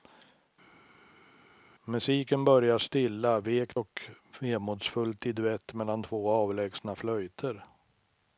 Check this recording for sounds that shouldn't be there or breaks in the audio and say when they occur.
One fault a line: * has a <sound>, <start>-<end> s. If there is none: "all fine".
all fine